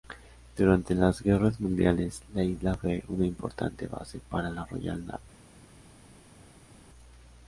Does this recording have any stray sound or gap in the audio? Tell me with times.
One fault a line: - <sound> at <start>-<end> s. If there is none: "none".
none